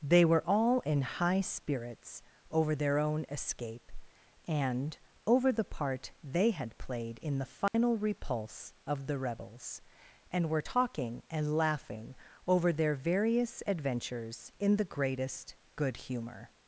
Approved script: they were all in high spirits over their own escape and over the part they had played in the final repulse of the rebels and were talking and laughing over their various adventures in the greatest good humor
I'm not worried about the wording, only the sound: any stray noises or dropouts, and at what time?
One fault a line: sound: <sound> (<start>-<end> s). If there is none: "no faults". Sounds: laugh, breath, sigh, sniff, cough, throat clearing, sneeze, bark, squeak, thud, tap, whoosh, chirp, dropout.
sound: dropout (7.7-7.7 s)